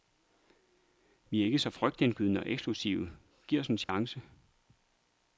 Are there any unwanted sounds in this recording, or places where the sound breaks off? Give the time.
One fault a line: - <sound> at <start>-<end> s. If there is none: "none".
- dropout at 3.8-3.9 s